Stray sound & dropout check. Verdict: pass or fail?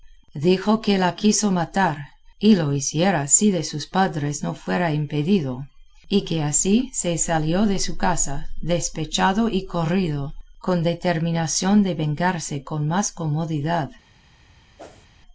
fail